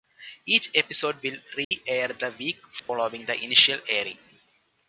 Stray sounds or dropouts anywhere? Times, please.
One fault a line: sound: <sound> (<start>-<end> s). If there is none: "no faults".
sound: dropout (1.6-1.7 s)
sound: dropout (2.8-2.9 s)